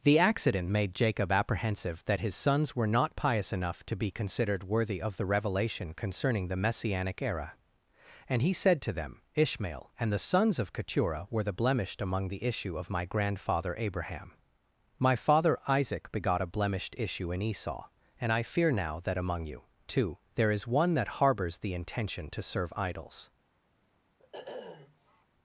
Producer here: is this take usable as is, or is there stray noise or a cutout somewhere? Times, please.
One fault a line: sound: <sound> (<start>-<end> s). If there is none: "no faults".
sound: sniff (24.2-25.3 s)